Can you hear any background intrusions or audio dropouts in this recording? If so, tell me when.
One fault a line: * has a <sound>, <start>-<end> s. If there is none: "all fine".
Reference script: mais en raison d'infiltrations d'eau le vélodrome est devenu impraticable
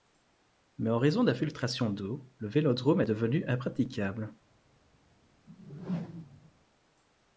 * has a whoosh, 5.5-6.5 s